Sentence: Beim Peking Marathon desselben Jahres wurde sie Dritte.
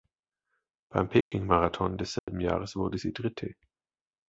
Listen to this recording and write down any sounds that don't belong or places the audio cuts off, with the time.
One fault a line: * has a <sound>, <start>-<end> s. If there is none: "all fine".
* has a dropout, 1.2-1.3 s
* has a dropout, 2.2-2.3 s